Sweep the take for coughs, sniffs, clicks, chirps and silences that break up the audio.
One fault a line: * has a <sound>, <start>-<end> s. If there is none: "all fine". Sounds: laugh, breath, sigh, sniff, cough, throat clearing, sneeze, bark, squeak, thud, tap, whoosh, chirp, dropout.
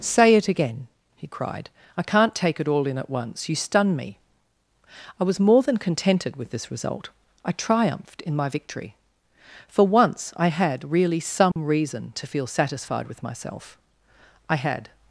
* has a dropout, 11.5-11.6 s